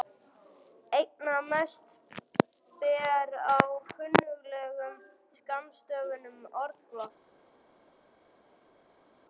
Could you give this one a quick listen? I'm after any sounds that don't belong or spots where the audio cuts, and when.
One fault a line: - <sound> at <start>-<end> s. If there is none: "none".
none